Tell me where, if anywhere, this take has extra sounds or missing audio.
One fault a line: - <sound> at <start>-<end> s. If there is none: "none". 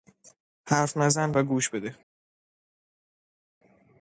none